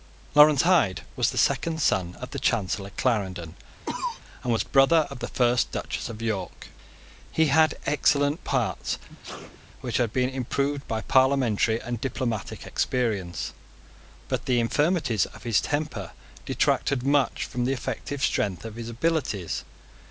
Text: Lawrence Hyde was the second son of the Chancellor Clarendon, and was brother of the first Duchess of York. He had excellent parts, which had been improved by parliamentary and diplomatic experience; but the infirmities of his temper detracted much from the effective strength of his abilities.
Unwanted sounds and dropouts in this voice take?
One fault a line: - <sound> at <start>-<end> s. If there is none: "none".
- cough at 3.9-4.2 s
- sneeze at 9.1-9.6 s